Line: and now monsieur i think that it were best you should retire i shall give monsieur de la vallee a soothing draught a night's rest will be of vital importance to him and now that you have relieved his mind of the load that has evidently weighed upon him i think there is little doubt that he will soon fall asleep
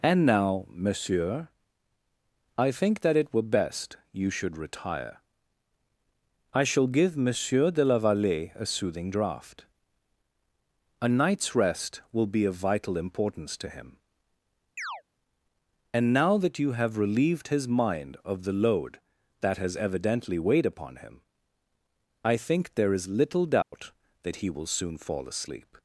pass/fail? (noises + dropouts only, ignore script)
fail